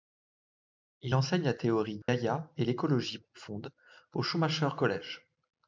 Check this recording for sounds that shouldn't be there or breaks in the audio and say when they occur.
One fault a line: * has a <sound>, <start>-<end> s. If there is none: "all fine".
* has a dropout, 2.0-2.1 s